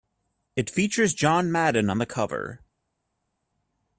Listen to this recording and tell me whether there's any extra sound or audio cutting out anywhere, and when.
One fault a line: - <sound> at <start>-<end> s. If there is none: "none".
none